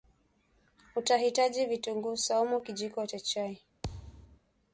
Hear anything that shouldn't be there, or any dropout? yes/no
yes